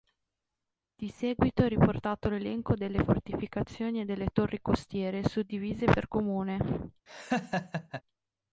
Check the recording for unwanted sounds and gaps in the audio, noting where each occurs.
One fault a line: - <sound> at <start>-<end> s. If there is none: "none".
- laugh at 7.1-8.0 s